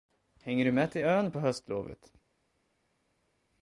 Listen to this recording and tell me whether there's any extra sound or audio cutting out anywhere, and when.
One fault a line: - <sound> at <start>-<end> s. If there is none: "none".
none